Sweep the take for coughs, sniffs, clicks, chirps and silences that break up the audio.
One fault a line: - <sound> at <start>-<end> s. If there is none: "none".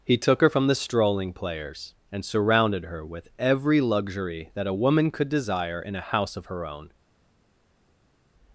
none